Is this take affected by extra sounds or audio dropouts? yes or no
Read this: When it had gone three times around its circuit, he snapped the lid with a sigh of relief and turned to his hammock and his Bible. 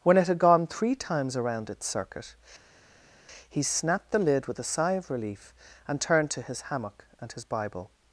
no